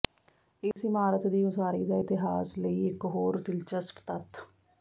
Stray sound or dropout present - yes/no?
yes